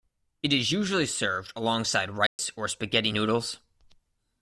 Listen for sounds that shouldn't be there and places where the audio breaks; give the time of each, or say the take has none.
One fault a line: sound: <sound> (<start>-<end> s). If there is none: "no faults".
sound: dropout (2.3-2.4 s)